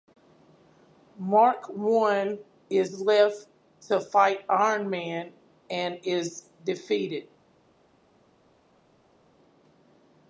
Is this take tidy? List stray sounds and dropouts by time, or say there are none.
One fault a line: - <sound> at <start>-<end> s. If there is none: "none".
none